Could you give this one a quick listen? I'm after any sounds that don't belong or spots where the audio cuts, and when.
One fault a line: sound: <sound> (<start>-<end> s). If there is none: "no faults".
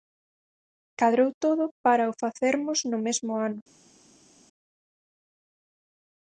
no faults